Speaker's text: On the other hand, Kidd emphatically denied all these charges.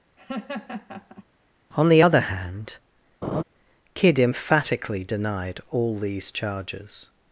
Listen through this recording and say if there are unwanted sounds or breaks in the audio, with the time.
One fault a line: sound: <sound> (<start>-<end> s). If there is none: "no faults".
sound: laugh (0.2-1.3 s)
sound: laugh (3.2-3.4 s)